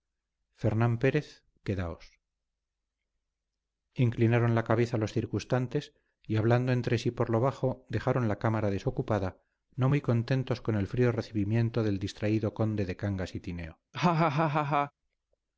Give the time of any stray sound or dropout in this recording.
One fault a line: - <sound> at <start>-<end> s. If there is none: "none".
- laugh at 13.9-14.9 s